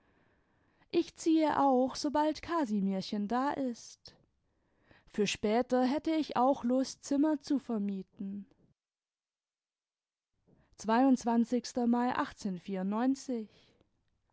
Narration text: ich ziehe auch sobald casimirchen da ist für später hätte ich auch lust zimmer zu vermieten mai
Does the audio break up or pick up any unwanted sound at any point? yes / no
no